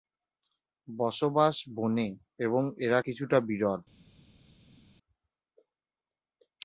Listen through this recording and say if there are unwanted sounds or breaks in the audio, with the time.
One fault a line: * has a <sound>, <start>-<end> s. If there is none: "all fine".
all fine